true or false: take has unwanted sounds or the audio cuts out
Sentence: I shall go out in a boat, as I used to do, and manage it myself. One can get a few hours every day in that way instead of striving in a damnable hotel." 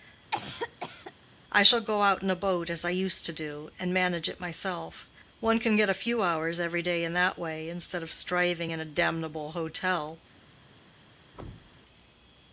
true